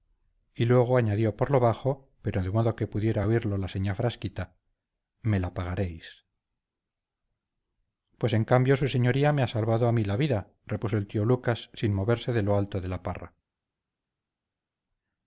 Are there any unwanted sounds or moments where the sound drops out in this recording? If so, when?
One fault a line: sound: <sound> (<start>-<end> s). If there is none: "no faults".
no faults